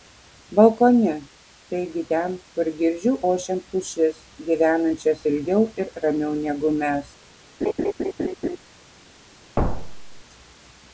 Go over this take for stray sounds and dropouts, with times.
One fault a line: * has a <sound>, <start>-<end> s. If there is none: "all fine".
* has a laugh, 7.6-8.6 s
* has a thud, 9.6-10.2 s